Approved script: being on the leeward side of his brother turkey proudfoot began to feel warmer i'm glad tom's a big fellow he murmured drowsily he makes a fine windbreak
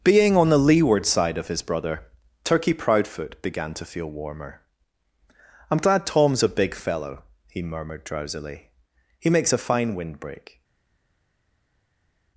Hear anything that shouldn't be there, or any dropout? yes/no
no